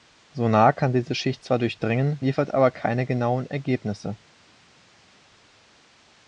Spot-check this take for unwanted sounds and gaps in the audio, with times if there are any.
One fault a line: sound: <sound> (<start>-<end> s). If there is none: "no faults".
no faults